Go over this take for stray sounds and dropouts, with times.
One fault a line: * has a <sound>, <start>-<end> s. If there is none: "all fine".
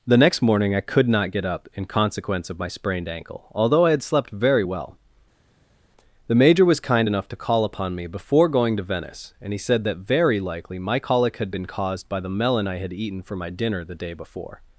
all fine